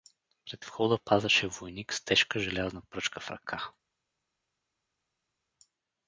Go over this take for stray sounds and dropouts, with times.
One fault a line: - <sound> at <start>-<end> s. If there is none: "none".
none